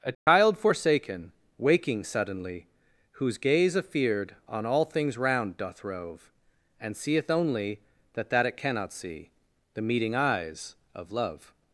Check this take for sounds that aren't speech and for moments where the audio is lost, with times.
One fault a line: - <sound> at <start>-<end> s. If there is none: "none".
- dropout at 0.1-0.3 s